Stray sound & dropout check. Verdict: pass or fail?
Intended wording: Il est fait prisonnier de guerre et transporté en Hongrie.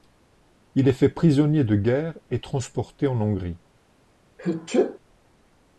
fail